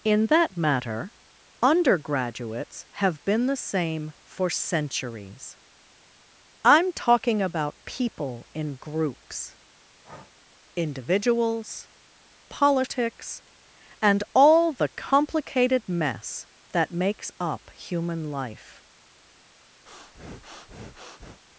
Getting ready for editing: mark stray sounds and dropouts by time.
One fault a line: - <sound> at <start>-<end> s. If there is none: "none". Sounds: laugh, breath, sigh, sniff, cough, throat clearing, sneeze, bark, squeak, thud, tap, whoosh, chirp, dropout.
- breath at 10.0-10.3 s
- breath at 19.9-21.4 s